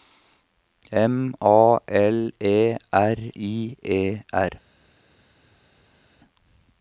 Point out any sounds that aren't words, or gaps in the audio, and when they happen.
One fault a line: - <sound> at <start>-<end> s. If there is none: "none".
none